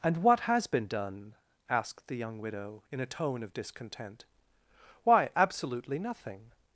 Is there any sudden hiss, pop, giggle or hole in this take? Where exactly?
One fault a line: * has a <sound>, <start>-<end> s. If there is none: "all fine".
all fine